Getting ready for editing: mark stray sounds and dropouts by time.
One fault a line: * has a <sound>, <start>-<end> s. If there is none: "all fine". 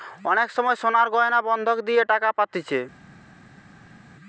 all fine